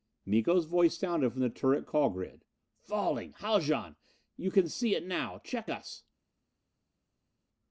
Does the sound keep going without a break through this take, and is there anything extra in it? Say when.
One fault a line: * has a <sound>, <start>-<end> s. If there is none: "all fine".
all fine